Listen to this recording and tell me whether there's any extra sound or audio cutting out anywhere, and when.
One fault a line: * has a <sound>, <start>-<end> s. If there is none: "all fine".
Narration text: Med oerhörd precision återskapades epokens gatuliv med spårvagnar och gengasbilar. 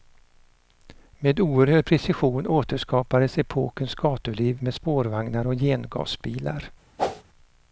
* has a whoosh, 7.0-7.2 s